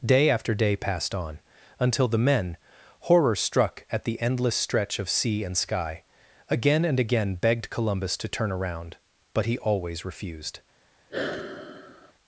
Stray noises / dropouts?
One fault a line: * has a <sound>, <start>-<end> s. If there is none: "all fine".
* has a sigh, 11.1-12.1 s